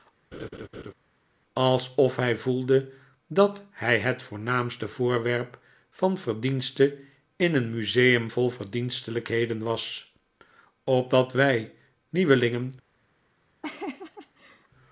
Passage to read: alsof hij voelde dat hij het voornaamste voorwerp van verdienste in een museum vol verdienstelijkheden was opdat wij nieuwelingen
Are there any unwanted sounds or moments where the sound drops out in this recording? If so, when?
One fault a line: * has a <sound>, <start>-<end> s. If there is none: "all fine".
* has a laugh, 0.3-0.9 s
* has a laugh, 13.6-14.7 s